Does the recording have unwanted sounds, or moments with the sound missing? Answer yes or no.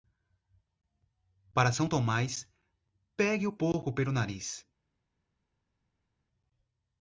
no